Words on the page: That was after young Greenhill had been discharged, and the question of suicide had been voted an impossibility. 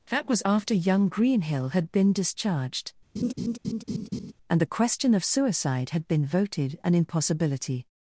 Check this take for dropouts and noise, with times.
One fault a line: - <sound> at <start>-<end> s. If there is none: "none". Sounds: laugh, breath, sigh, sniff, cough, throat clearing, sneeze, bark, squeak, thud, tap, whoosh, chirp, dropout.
- laugh at 3.2-4.3 s